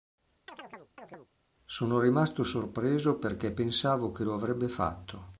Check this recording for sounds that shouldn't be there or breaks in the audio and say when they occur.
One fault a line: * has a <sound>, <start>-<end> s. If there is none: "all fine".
* has a chirp, 0.5-1.3 s